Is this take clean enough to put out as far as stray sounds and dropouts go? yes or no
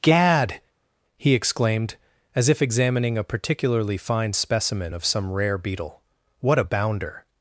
yes